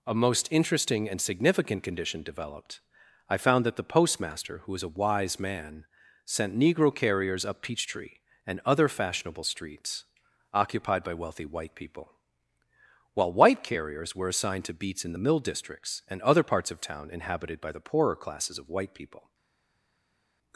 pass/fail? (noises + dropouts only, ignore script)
pass